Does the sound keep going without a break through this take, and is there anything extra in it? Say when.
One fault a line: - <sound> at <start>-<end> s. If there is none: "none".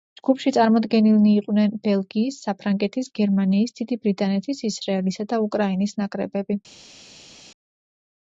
none